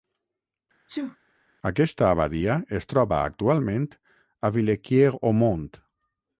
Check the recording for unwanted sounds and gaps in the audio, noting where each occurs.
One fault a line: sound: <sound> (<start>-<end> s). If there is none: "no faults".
sound: sneeze (0.9-1.2 s)